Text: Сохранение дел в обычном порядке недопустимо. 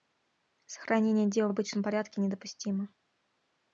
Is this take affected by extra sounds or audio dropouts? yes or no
no